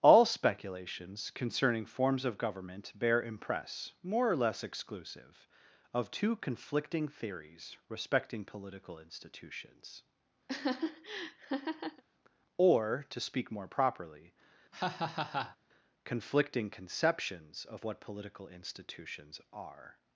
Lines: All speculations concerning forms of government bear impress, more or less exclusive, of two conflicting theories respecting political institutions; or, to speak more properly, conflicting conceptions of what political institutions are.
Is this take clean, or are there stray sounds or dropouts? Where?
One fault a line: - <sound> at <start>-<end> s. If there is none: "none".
- laugh at 10.5-12.0 s
- laugh at 14.7-15.6 s